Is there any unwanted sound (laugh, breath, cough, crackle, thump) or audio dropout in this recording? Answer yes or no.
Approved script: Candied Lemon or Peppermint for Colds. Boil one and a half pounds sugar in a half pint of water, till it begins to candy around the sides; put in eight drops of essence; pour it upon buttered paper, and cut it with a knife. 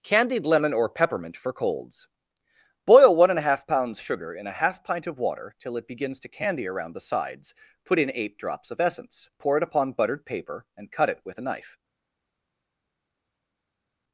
no